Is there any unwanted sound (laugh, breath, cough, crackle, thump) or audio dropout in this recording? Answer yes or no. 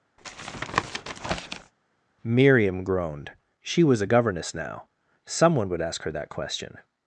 yes